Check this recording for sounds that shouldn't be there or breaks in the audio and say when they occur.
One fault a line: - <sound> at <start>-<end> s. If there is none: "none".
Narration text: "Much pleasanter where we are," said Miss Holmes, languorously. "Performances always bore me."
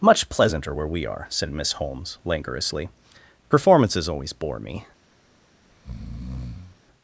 - breath at 5.7-6.8 s